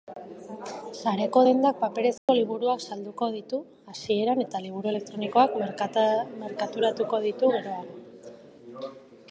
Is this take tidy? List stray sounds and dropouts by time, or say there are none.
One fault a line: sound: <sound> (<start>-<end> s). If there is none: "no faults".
sound: dropout (2.2-2.3 s)